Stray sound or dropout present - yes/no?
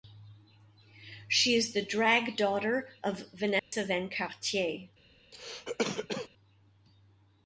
yes